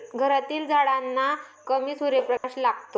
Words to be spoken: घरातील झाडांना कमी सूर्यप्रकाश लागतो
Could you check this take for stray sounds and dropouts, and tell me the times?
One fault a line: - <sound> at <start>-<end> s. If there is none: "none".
- dropout at 2.4-2.4 s